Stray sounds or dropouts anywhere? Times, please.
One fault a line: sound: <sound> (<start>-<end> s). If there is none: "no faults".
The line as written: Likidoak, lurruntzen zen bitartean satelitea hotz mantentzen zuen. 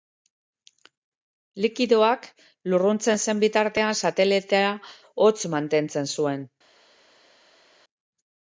no faults